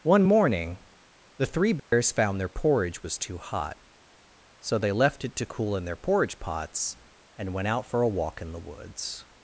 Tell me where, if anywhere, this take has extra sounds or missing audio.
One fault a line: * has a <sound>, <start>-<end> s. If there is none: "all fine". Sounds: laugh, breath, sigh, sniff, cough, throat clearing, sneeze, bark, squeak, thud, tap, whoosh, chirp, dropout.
* has a dropout, 1.8-1.9 s